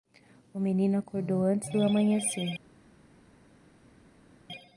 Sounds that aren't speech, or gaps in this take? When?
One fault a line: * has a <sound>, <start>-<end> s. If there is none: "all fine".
all fine